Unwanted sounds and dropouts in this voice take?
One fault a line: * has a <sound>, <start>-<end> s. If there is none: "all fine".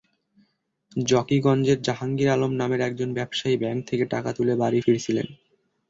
all fine